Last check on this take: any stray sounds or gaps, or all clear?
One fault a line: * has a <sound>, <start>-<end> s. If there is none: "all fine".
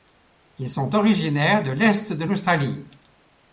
all fine